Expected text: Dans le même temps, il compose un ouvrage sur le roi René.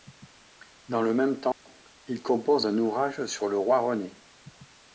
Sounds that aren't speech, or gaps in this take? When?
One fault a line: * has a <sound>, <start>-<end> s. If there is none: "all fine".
* has a dropout, 1.5-1.7 s